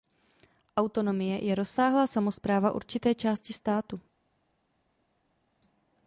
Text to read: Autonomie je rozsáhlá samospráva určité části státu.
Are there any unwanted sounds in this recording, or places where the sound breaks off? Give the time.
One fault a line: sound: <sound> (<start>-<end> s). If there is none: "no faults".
no faults